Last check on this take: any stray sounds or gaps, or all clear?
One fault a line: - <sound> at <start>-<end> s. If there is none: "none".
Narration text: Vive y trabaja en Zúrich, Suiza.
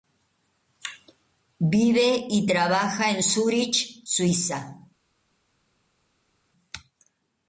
none